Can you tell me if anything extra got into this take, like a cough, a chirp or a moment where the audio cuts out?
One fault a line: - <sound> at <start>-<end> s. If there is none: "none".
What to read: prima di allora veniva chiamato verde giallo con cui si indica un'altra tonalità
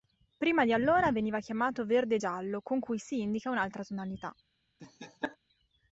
- laugh at 4.8-5.4 s